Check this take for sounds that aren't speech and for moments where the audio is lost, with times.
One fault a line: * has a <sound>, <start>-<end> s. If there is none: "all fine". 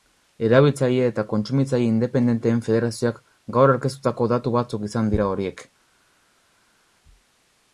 all fine